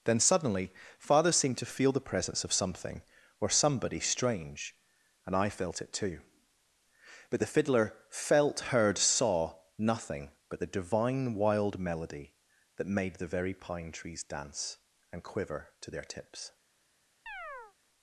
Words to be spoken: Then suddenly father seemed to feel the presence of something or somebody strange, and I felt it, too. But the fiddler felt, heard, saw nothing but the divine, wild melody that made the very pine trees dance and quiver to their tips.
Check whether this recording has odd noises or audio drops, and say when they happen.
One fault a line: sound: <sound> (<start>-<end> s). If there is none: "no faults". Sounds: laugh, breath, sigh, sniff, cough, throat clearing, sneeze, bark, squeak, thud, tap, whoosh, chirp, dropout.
sound: chirp (17.3-17.8 s)